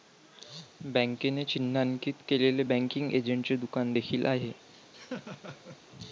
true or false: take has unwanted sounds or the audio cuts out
true